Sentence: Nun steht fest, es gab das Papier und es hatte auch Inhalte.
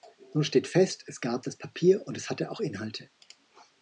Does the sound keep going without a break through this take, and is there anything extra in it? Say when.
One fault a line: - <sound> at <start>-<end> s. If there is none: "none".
none